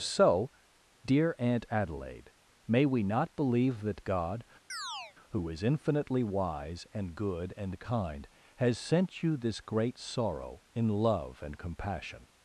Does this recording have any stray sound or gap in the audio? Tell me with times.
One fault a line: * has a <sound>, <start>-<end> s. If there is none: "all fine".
* has a chirp, 4.7-5.2 s